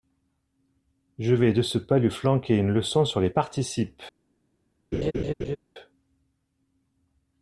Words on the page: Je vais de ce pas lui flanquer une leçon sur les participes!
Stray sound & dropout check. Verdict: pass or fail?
fail